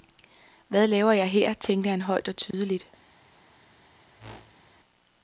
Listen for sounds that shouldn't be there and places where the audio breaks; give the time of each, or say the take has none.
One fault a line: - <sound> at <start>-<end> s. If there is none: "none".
- dropout at 2.5-2.5 s
- whoosh at 4.2-4.7 s